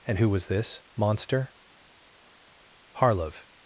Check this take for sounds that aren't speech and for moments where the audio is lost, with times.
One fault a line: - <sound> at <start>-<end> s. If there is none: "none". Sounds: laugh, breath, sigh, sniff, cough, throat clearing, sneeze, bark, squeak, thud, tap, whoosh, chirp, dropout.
none